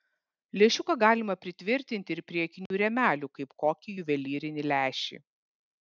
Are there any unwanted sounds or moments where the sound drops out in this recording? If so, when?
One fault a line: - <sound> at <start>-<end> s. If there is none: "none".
- dropout at 2.7-2.7 s